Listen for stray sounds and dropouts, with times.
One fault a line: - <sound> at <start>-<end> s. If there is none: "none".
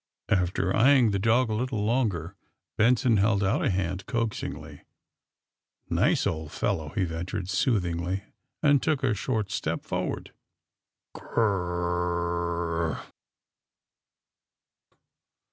none